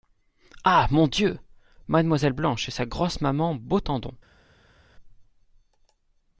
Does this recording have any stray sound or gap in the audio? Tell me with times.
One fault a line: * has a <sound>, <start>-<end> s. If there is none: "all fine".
all fine